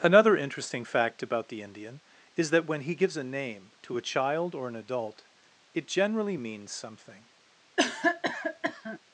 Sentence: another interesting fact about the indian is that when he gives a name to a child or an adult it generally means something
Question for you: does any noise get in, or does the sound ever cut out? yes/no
yes